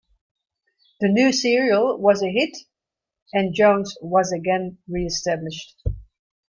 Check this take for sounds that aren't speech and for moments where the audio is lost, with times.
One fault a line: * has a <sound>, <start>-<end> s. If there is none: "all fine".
all fine